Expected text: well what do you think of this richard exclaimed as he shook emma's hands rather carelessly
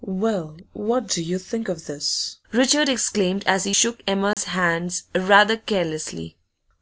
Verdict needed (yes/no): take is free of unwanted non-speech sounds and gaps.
no